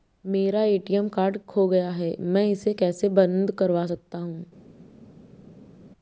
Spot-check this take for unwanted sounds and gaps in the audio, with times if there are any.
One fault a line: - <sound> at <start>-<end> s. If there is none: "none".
none